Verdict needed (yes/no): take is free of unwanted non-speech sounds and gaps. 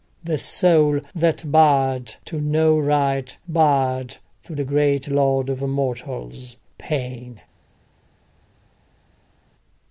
yes